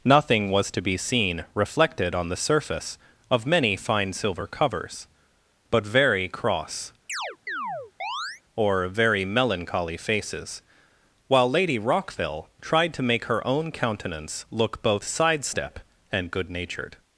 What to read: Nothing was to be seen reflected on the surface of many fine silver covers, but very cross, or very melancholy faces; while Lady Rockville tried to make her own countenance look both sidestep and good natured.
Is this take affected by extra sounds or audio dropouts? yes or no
yes